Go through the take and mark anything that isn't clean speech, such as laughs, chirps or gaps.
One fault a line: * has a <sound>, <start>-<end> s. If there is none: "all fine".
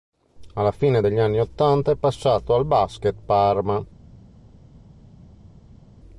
all fine